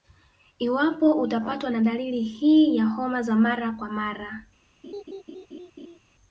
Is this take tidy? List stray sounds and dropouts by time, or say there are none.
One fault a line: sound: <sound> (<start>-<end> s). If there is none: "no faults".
sound: laugh (4.8-6.0 s)